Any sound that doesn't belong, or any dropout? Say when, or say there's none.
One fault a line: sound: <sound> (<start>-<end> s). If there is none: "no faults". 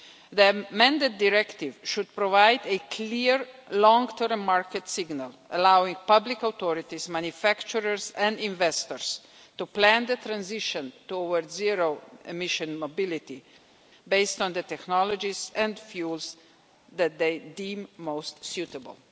no faults